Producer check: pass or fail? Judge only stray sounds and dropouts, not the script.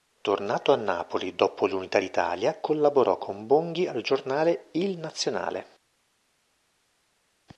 pass